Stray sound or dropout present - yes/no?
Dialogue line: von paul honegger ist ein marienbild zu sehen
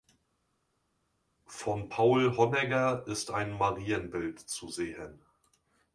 no